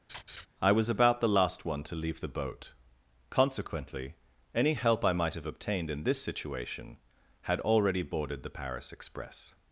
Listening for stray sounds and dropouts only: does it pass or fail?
fail